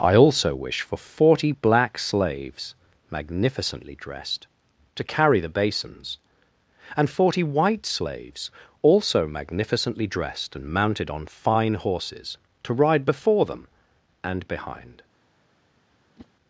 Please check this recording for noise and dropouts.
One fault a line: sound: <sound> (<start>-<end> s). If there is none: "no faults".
sound: whoosh (16.2-16.3 s)